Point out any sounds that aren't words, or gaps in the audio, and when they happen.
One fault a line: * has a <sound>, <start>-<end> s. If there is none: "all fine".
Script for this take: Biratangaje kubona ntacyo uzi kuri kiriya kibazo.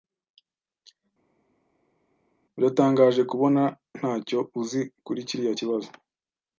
all fine